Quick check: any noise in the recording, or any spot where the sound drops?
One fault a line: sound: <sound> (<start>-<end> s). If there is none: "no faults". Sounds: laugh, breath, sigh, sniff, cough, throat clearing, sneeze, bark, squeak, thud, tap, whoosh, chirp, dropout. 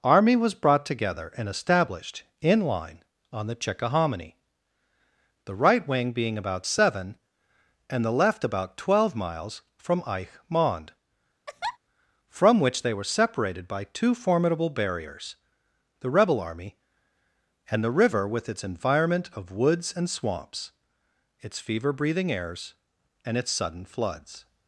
sound: laugh (11.5-11.8 s)